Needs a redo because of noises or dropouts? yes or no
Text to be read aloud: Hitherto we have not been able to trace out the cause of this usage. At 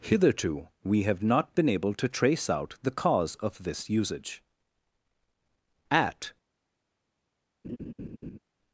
yes